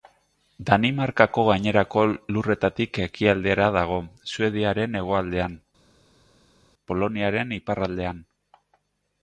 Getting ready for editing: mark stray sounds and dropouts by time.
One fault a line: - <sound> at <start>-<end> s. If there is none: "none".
none